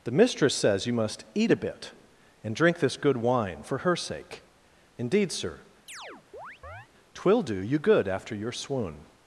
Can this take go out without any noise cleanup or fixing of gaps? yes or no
no